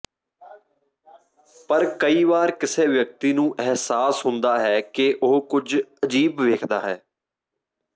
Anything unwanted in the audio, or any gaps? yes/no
no